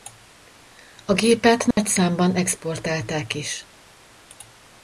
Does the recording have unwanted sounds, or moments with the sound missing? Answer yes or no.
yes